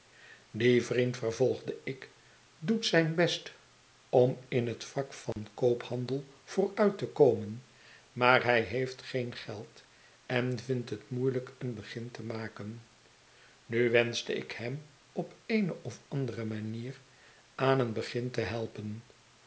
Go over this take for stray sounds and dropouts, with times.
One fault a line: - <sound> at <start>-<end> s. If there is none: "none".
- dropout at 5.3-5.4 s